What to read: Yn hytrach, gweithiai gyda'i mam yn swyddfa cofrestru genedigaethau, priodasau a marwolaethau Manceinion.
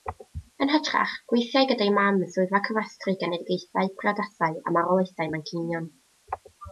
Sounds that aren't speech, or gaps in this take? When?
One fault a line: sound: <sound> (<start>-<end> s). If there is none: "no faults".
no faults